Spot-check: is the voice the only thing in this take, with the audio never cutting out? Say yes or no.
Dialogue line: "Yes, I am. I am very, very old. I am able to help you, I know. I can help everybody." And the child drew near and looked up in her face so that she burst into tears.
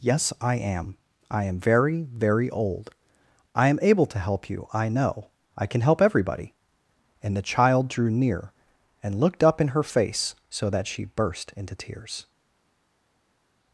yes